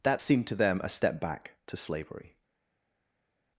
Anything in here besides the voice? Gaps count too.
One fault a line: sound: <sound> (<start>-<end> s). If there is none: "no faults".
no faults